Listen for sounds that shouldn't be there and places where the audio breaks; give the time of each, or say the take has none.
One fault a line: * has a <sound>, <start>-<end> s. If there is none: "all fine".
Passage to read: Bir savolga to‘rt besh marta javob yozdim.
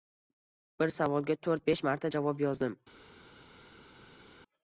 all fine